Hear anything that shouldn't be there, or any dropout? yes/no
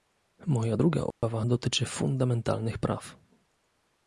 yes